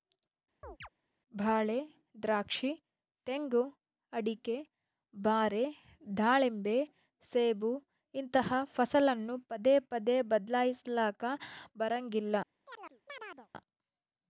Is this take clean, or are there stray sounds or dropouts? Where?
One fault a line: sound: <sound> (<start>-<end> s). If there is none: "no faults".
sound: chirp (0.6-0.9 s)
sound: chirp (12.7-13.5 s)